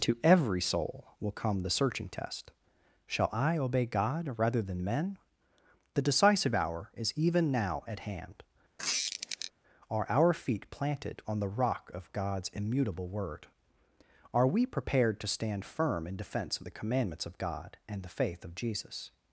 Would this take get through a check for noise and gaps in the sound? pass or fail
fail